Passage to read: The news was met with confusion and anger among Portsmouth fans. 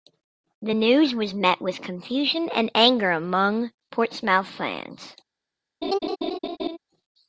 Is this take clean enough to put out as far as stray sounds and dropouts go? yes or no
no